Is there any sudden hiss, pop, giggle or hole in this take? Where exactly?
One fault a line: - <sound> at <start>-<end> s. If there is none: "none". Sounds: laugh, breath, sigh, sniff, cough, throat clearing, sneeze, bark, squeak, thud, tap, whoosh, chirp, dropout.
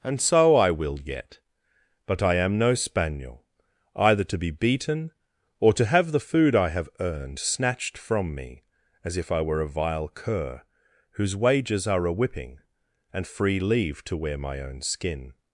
none